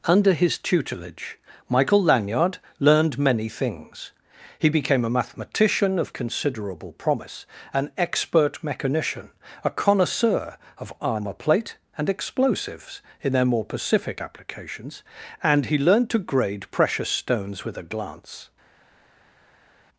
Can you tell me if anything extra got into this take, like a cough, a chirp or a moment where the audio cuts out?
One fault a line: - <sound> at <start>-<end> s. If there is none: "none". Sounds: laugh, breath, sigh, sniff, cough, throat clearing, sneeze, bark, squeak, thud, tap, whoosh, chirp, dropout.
none